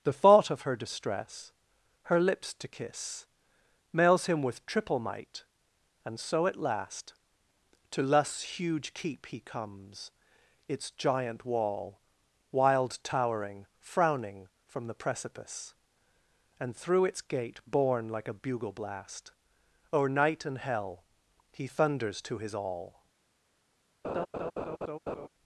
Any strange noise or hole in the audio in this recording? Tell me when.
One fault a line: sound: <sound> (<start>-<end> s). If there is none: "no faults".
sound: laugh (24.0-25.3 s)